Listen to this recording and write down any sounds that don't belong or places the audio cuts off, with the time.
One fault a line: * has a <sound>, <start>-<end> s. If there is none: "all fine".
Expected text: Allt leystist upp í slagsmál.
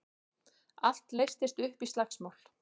all fine